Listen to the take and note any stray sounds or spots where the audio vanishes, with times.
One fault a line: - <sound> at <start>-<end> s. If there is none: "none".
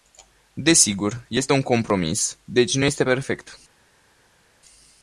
none